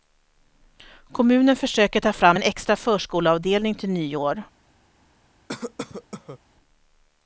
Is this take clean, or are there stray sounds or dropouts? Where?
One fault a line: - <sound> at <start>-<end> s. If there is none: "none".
- cough at 5.5-6.4 s